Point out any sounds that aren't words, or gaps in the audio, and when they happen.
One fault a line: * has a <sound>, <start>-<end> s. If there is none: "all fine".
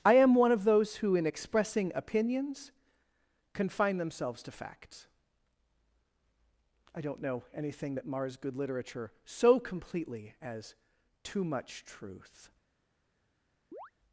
* has a chirp, 13.7-13.9 s